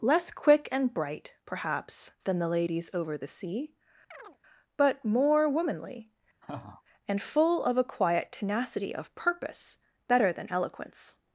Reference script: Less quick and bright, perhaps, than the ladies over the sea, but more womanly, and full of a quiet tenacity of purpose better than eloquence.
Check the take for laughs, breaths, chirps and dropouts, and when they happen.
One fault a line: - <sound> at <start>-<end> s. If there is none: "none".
- chirp at 4.1-4.4 s
- laugh at 6.4-6.8 s